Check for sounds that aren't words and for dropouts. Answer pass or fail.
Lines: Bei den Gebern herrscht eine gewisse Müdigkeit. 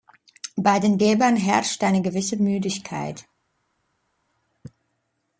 pass